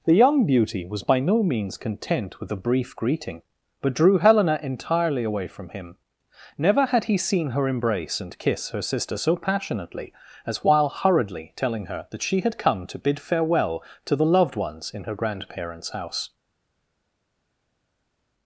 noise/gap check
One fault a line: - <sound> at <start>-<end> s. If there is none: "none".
none